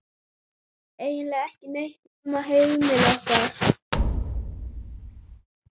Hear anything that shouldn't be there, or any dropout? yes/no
yes